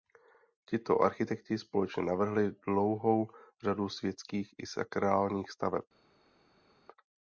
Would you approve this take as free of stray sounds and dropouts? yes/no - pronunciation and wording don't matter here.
yes